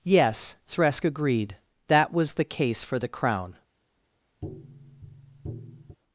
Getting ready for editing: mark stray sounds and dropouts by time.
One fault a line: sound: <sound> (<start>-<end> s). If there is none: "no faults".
sound: tap (4.4-6.0 s)